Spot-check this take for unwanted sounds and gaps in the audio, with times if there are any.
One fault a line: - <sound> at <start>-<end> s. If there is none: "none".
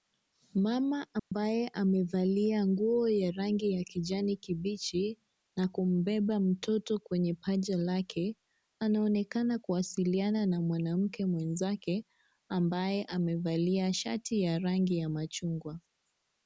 - dropout at 1.2-1.3 s